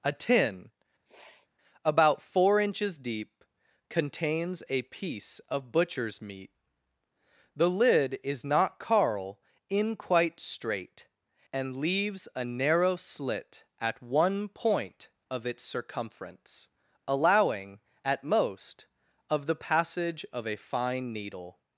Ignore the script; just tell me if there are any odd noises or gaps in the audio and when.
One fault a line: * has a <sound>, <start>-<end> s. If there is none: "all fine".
* has a sniff, 1.0-1.5 s